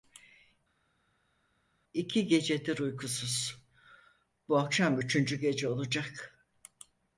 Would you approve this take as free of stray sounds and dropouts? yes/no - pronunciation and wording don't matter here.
yes